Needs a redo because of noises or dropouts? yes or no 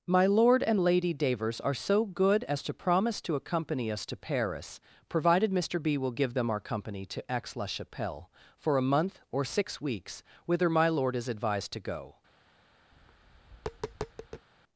yes